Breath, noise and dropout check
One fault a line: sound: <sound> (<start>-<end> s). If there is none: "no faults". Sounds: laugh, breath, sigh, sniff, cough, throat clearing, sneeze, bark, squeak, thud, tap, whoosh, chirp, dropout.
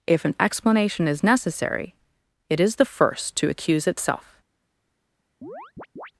sound: chirp (5.4-6.1 s)